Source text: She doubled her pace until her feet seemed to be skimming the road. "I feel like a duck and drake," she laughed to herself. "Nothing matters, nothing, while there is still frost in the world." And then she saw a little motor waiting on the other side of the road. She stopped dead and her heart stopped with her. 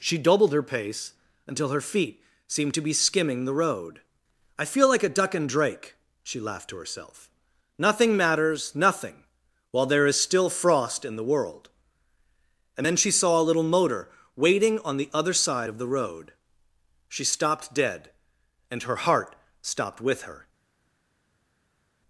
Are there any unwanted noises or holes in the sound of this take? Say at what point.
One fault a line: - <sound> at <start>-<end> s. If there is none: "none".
none